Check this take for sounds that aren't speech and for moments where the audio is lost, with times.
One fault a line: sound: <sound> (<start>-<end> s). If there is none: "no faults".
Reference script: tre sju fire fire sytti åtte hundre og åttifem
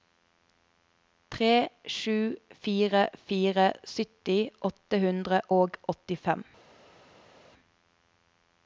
no faults